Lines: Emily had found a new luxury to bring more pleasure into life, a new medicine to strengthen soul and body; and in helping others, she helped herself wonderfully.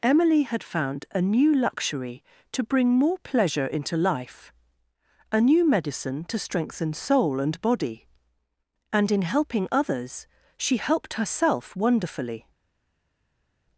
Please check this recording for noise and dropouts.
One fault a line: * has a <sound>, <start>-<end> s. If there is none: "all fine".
all fine